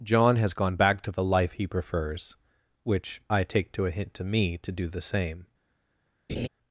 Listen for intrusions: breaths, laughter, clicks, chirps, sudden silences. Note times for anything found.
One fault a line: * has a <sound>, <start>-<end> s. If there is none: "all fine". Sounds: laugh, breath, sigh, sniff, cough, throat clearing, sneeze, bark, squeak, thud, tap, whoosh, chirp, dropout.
* has a laugh, 6.3-6.5 s